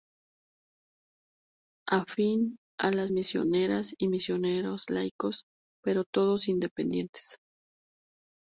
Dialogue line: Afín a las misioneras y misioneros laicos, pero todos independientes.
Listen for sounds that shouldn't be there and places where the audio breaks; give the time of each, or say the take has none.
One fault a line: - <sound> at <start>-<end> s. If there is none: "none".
none